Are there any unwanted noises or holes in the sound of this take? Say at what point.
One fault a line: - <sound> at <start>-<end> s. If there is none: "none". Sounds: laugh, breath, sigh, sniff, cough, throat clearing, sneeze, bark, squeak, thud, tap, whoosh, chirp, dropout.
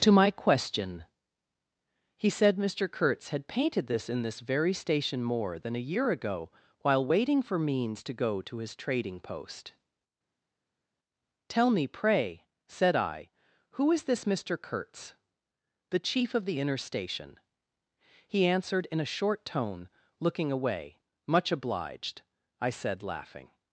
none